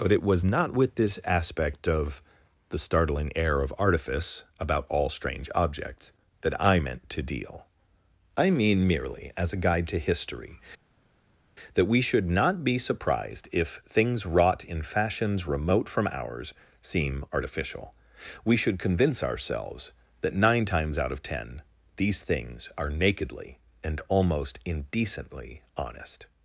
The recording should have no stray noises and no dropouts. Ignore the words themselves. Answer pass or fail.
pass